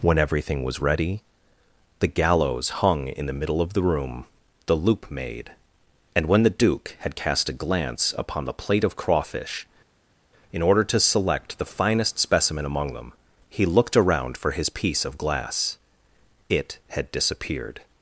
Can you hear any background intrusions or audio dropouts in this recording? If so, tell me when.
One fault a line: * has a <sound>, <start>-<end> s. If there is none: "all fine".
all fine